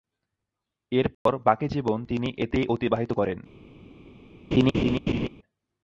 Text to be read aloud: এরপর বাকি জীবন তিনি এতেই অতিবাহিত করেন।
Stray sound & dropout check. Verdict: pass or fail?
fail